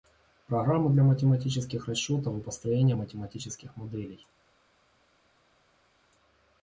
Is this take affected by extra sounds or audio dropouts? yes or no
no